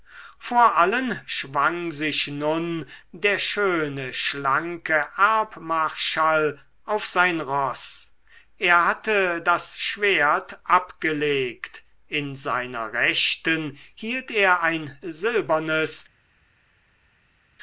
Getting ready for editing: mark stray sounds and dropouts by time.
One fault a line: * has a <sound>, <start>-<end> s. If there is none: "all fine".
all fine